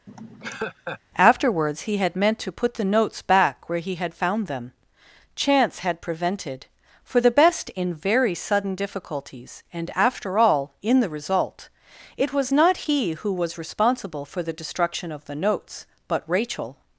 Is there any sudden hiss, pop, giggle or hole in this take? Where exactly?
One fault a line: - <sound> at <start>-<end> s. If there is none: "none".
- laugh at 0.1-1.0 s